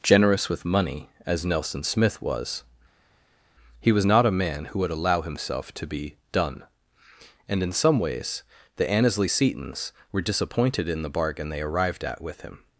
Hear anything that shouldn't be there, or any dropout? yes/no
no